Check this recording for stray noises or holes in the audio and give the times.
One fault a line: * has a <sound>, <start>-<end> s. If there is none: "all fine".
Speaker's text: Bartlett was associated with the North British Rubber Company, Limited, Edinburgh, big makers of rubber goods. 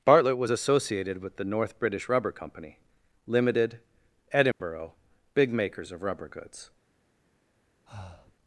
* has a dropout, 4.5-4.6 s
* has a breath, 7.9-8.4 s